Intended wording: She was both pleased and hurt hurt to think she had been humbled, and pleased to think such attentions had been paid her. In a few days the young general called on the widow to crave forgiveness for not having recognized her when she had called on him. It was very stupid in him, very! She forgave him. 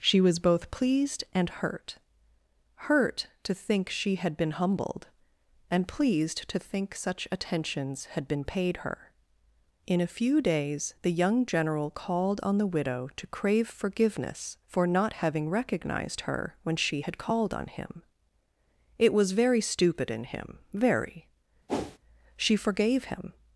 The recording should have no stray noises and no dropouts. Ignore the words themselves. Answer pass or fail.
fail